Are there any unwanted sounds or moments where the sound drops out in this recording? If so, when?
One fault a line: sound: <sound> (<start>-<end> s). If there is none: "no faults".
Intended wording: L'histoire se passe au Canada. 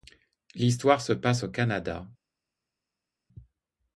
no faults